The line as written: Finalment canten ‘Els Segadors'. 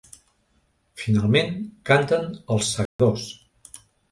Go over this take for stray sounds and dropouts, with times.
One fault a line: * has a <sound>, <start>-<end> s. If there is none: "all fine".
* has a dropout, 2.9-3.0 s